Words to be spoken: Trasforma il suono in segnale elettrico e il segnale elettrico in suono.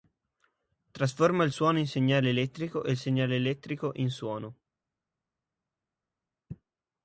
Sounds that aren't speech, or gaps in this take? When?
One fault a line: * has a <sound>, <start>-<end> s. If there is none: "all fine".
all fine